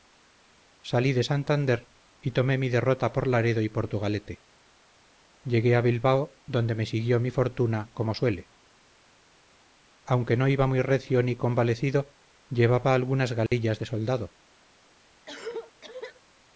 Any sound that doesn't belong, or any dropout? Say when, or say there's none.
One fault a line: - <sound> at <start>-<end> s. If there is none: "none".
- dropout at 13.5-13.5 s
- cough at 15.3-16.2 s